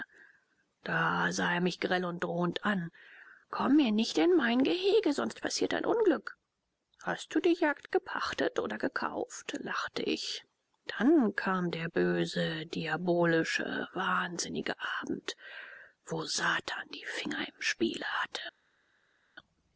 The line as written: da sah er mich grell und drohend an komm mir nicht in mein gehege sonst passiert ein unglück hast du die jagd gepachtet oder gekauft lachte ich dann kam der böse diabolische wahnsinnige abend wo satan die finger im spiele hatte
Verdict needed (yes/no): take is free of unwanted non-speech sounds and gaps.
yes